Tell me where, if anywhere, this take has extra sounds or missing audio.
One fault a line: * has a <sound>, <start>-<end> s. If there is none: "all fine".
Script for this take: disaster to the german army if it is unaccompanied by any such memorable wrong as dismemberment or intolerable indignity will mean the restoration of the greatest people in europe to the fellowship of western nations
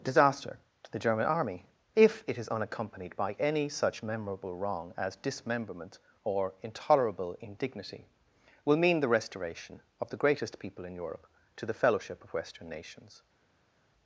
all fine